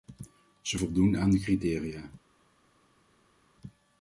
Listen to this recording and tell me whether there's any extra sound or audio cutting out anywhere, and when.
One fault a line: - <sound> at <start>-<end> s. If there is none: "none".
none